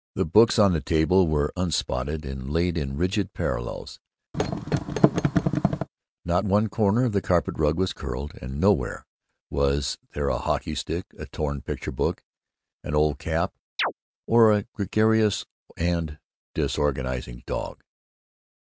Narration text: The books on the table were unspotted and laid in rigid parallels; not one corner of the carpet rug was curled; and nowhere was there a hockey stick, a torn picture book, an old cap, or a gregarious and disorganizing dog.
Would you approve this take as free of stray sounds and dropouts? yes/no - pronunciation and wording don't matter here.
no